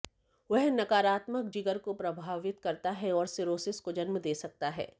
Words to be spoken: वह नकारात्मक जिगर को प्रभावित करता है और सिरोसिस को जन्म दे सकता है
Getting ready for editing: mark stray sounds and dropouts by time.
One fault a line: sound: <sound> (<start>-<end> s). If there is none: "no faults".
no faults